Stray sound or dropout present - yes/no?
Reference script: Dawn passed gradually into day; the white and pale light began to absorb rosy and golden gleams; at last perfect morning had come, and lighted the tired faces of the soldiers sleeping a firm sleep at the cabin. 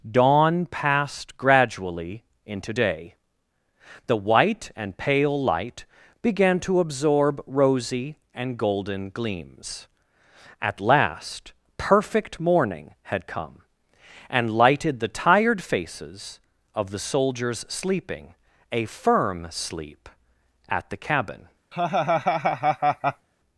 yes